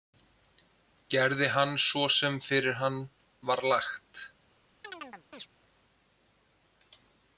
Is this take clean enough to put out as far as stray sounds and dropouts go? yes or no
no